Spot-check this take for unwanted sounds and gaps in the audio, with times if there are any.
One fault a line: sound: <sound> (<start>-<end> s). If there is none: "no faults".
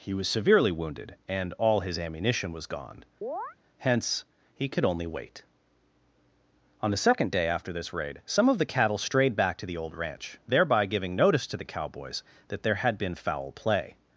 sound: chirp (3.2-3.6 s)